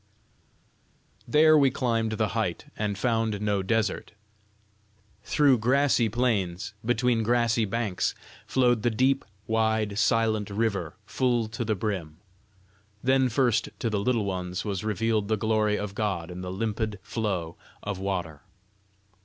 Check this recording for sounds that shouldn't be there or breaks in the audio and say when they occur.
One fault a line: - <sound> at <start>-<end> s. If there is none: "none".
none